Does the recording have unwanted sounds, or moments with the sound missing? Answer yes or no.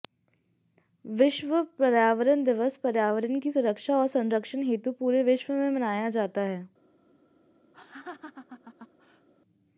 yes